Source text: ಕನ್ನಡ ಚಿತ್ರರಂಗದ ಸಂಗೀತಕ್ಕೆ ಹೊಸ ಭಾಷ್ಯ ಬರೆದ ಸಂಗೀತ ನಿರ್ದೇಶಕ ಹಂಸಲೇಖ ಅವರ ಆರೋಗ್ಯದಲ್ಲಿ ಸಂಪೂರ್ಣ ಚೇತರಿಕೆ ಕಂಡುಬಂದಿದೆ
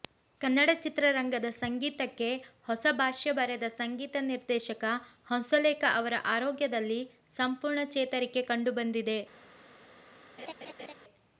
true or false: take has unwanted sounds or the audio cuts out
true